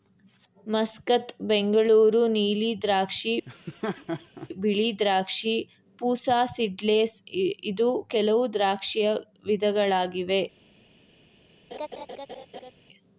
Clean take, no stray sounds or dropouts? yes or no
no